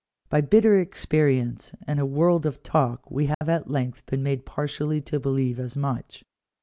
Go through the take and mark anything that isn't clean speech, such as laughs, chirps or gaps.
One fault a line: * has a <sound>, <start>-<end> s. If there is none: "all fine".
* has a dropout, 3.3-3.4 s